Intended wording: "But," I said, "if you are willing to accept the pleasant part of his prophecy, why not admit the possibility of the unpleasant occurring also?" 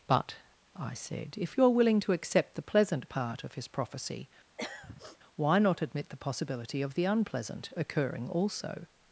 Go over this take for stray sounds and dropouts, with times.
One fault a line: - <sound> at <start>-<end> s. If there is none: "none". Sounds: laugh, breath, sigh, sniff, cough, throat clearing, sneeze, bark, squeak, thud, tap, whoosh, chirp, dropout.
- throat clearing at 4.6-5.2 s